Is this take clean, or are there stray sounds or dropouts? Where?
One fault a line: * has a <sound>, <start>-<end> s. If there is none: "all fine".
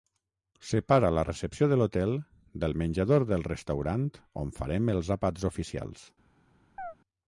* has a chirp, 6.8-6.9 s